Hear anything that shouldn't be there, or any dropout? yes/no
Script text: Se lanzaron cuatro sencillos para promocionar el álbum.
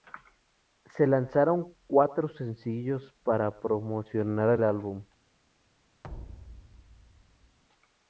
yes